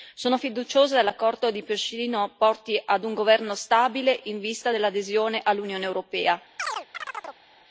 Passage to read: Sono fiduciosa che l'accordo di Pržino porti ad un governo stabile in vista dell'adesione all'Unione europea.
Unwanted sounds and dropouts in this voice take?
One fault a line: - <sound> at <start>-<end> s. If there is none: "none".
- chirp at 6.6-7.4 s